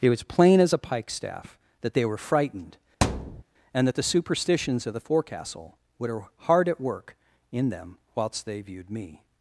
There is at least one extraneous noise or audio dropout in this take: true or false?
true